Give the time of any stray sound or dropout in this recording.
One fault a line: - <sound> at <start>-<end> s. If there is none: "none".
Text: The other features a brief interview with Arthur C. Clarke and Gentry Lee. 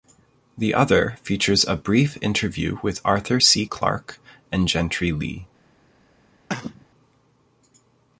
- cough at 6.5-6.9 s